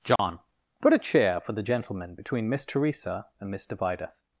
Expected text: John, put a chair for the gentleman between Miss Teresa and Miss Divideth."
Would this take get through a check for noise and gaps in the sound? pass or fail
fail